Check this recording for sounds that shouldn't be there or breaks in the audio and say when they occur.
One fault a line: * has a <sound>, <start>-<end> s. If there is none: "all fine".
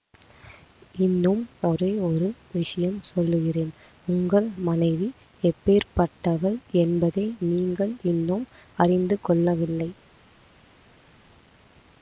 all fine